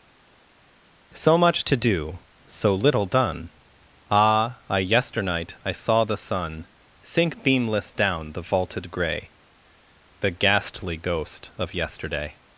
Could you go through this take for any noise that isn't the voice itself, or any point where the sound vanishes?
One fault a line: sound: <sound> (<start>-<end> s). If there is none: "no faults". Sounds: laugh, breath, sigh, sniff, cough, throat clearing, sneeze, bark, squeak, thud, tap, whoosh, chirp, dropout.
no faults